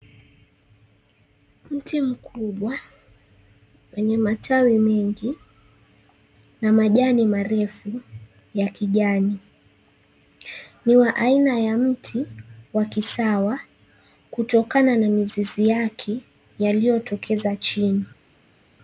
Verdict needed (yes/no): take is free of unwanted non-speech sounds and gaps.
yes